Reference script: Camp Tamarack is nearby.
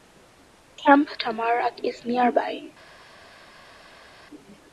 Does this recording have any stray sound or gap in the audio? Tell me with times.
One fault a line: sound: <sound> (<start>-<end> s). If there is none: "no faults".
no faults